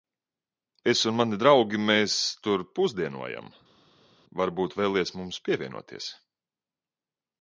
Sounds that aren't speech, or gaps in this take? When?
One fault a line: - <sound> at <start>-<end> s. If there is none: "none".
none